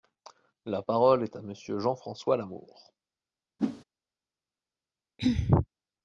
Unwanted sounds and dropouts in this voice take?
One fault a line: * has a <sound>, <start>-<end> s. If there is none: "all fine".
* has a whoosh, 3.6-3.8 s
* has a throat clearing, 5.2-5.7 s